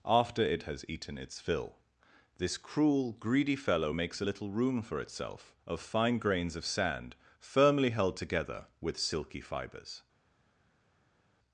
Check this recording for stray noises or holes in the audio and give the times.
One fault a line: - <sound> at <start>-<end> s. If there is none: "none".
none